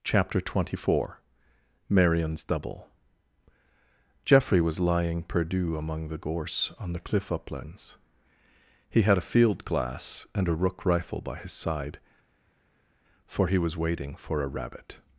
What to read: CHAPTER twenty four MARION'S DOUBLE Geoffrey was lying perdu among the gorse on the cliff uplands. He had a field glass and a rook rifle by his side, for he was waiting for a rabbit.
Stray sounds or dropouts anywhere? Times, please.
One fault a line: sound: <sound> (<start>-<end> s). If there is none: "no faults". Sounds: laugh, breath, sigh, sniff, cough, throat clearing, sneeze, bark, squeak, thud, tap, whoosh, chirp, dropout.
no faults